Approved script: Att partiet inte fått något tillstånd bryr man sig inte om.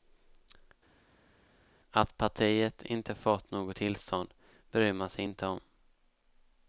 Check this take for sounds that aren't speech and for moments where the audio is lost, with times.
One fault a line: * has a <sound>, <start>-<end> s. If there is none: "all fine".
all fine